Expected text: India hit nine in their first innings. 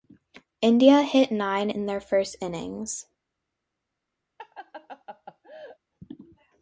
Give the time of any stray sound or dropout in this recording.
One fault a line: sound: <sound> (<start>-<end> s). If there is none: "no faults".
sound: laugh (4.4-5.8 s)